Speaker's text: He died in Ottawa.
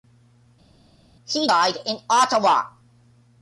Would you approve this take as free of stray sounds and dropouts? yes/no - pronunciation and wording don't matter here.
yes